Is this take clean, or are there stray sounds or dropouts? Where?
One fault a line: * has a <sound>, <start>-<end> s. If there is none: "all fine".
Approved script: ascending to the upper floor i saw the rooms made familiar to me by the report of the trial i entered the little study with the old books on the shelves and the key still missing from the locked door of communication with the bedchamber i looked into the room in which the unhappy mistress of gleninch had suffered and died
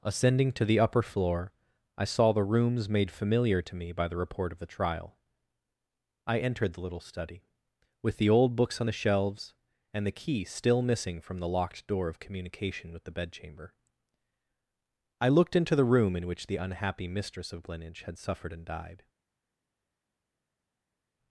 all fine